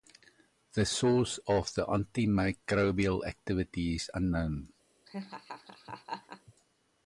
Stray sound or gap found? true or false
true